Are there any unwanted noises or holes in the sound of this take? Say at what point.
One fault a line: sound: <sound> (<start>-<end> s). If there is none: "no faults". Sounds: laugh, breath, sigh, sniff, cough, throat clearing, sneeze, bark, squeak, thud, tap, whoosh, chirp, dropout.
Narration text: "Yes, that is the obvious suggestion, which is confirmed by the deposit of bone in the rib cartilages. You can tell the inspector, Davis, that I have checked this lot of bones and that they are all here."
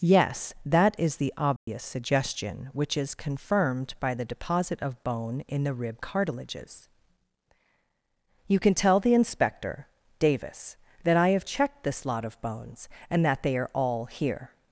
sound: dropout (1.6-1.7 s)